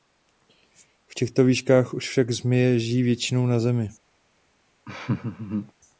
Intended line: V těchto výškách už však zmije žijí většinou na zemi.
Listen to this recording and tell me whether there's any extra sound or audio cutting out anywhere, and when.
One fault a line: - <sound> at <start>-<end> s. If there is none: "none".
- laugh at 4.8-5.7 s